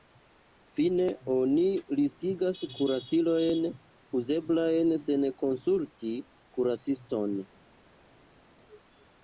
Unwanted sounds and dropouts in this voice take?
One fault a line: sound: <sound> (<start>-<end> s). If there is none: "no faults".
no faults